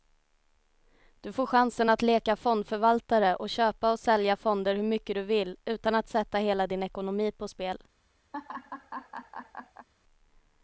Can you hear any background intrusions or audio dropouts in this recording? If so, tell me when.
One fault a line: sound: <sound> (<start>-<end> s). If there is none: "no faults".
sound: laugh (8.3-9.9 s)